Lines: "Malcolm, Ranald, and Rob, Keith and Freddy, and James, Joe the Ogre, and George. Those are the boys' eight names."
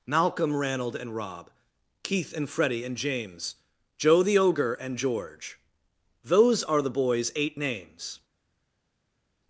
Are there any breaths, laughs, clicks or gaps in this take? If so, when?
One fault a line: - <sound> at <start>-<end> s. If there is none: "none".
none